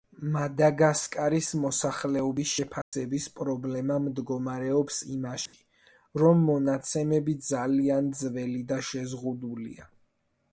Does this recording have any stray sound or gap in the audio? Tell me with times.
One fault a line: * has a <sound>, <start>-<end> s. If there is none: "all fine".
* has a dropout, 2.8-2.9 s
* has a dropout, 5.5-5.5 s